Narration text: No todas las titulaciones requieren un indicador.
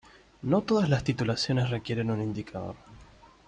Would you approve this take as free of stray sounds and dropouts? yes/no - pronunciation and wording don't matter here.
yes